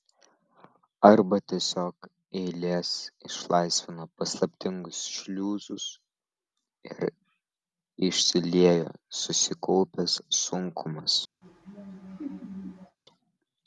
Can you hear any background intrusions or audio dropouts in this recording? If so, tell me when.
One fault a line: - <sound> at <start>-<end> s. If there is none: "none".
- laugh at 11.4-13.0 s